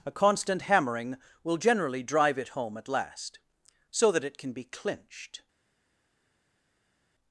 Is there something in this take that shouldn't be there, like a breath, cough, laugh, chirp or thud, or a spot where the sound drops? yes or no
no